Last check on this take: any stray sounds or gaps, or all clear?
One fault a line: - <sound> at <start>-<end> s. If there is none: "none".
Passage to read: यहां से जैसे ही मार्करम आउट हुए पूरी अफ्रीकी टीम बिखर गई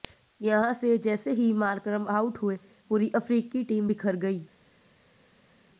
none